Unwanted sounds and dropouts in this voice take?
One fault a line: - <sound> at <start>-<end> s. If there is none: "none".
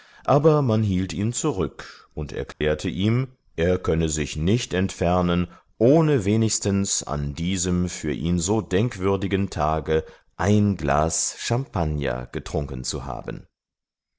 - dropout at 2.5-2.6 s